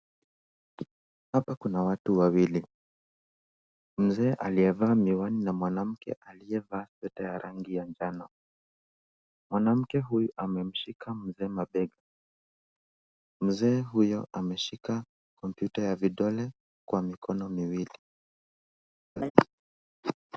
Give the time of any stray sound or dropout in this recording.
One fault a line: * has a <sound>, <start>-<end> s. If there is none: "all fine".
* has a laugh, 19.2-19.3 s